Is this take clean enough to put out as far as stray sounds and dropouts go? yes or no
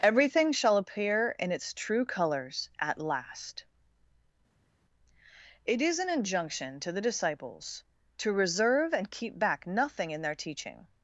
yes